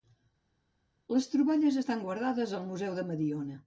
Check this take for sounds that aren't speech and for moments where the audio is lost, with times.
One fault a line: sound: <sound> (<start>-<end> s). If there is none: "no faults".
no faults